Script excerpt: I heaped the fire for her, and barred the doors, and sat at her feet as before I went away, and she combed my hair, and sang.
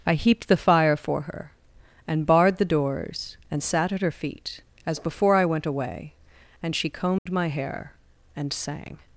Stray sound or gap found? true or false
true